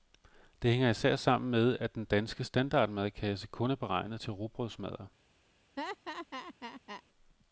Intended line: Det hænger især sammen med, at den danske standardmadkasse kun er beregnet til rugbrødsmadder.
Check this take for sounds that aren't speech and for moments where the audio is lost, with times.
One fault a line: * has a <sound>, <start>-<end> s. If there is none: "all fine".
* has a laugh, 5.8-7.0 s